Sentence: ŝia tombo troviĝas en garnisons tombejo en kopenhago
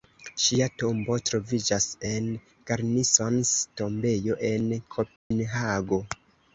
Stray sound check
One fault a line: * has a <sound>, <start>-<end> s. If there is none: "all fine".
* has a dropout, 5.2-5.3 s